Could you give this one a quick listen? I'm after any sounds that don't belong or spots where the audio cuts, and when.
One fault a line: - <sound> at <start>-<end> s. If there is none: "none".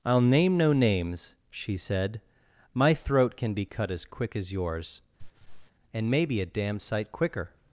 - laugh at 5.2-5.7 s